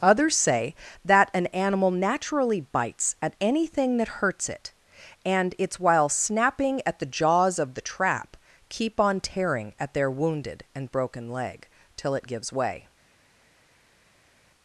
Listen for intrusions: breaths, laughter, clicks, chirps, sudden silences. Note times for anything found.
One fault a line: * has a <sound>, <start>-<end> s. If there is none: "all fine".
all fine